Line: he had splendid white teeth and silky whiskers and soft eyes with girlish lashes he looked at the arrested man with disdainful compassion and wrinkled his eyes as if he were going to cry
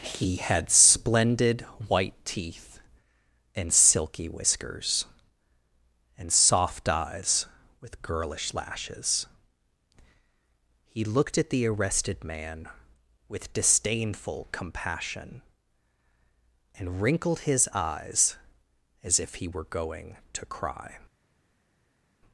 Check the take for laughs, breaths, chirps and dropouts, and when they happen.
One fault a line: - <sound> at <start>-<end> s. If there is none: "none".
none